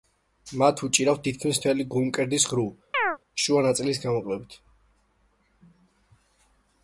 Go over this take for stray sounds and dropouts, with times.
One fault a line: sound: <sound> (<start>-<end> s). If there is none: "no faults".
sound: chirp (2.9-3.2 s)